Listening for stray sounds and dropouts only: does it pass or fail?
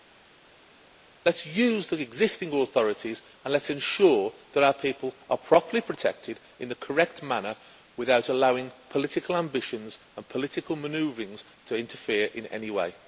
pass